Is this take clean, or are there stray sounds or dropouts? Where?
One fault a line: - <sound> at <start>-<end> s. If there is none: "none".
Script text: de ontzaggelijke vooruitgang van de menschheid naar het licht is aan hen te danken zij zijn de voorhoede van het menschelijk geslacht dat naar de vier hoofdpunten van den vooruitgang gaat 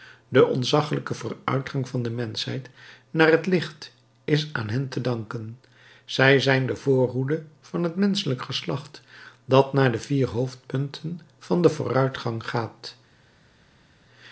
none